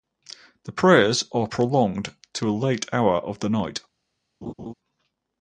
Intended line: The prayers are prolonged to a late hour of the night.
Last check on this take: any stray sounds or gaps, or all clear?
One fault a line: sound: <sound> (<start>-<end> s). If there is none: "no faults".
sound: laugh (4.4-4.7 s)